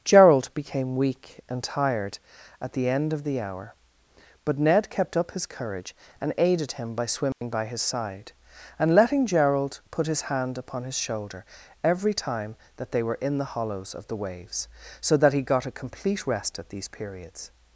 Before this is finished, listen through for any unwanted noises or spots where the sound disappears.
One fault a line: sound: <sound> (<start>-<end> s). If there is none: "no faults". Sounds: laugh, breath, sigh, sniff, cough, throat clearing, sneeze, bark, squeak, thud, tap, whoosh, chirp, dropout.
sound: dropout (7.3-7.4 s)